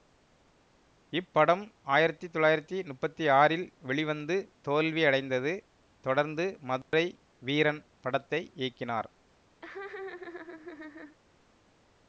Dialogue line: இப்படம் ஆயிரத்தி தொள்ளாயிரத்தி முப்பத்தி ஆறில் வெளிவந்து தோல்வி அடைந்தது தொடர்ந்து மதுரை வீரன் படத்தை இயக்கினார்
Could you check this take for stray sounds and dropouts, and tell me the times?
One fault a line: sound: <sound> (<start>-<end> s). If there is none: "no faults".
sound: dropout (6.8-6.9 s)
sound: laugh (9.6-11.2 s)